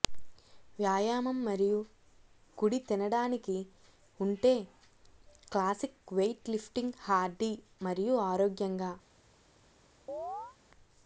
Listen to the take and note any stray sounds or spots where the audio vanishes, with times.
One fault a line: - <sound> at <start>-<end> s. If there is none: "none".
- chirp at 10.1-10.6 s